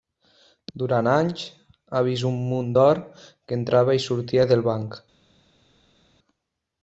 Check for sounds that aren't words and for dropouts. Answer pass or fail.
pass